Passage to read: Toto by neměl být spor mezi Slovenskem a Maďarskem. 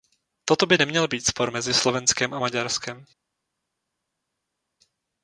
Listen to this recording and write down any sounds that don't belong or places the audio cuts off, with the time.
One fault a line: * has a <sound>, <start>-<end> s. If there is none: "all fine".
all fine